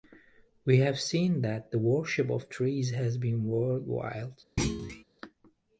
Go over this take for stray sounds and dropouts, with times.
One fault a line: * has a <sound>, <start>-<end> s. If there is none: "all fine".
* has a thud, 4.6-5.0 s